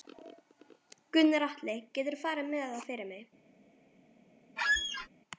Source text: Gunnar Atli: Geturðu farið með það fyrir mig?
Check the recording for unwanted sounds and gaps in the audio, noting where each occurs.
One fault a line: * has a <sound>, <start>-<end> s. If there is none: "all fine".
* has a squeak, 4.6-5.1 s